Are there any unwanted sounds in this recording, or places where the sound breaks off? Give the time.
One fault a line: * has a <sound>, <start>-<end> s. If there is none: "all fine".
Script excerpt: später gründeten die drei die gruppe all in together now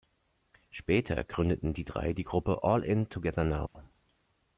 * has a dropout, 3.7-3.8 s